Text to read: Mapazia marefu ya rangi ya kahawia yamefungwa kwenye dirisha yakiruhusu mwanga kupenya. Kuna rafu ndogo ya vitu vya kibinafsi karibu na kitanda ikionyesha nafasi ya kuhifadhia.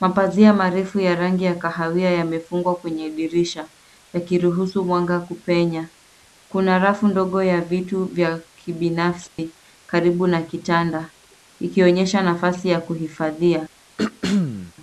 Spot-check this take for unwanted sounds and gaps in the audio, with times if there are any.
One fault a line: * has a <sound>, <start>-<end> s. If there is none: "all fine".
* has a dropout, 9.3-9.4 s
* has a throat clearing, 14.0-14.7 s